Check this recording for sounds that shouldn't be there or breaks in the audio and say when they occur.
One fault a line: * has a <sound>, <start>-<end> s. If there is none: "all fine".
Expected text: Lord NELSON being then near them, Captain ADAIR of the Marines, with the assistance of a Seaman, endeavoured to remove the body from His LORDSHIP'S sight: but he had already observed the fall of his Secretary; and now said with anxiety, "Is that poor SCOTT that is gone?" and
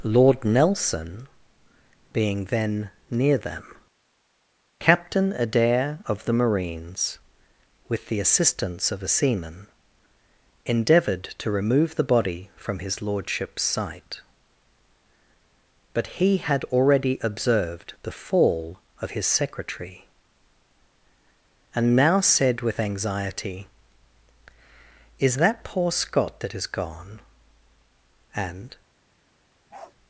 * has a bark, 29.7-29.9 s